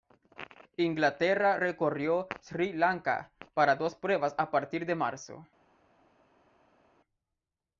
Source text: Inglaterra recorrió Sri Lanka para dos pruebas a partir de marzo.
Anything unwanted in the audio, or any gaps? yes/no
no